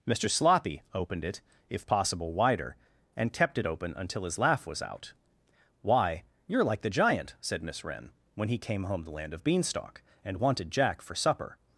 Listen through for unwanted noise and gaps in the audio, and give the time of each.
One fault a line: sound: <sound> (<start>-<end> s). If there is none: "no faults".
no faults